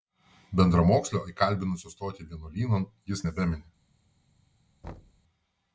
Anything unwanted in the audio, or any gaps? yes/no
yes